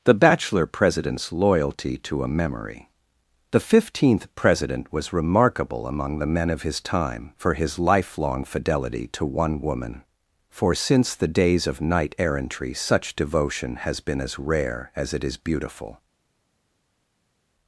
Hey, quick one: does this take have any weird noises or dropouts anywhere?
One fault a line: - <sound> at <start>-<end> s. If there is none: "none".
none